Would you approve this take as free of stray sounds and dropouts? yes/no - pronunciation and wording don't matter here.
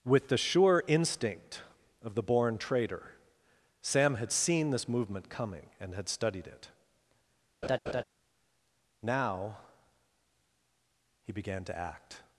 no